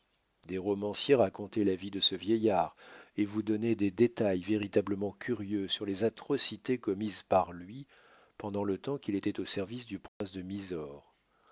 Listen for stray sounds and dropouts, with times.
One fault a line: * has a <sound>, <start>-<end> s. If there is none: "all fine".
* has a dropout, 10.1-10.2 s